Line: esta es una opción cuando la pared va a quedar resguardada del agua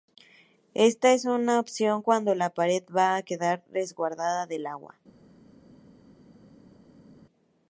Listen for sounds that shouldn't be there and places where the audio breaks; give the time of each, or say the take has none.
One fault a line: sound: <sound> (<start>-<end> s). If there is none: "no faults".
no faults